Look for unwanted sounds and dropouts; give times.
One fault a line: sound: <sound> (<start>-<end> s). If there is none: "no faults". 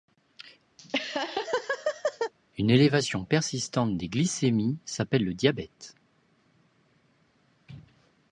sound: laugh (0.8-2.3 s)